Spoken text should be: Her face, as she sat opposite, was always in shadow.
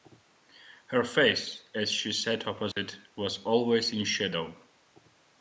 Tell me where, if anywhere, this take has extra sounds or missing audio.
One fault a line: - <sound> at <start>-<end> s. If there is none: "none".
- dropout at 2.7-2.8 s